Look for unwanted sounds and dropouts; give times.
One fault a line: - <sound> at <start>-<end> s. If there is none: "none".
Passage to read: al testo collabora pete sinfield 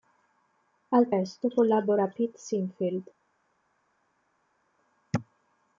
none